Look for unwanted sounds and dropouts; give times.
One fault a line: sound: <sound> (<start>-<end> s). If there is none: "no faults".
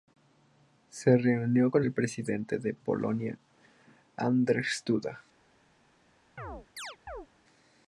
sound: chirp (6.4-7.3 s)